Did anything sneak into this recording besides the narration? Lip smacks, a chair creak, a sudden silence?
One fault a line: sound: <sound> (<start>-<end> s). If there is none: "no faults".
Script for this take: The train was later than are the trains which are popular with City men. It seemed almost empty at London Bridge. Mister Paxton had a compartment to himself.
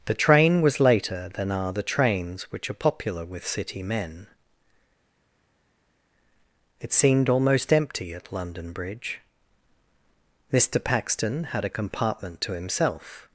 no faults